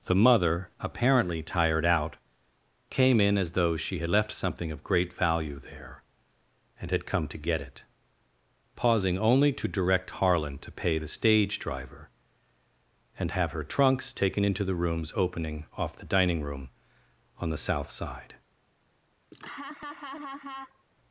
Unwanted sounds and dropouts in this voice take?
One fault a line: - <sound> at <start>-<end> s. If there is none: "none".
- laugh at 19.3-20.8 s